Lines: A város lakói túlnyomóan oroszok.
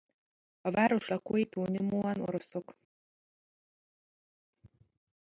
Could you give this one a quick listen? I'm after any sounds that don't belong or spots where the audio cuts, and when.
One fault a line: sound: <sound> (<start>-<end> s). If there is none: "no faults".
no faults